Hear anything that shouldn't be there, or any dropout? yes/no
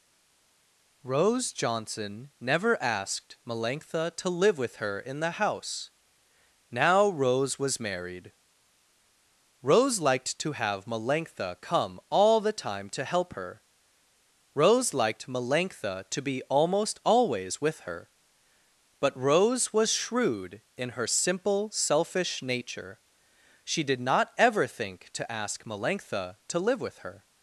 no